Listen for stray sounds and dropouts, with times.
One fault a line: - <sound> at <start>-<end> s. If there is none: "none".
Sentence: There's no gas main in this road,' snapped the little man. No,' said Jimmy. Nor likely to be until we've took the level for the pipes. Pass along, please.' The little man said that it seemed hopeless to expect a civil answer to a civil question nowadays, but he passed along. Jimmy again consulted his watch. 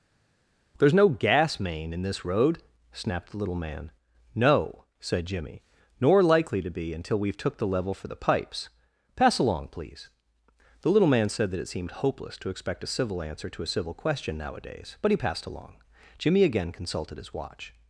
none